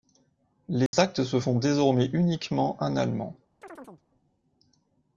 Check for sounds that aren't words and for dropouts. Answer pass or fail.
fail